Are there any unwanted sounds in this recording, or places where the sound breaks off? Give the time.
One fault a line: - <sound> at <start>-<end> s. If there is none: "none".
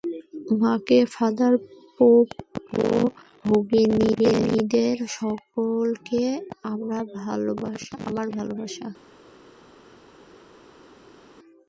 none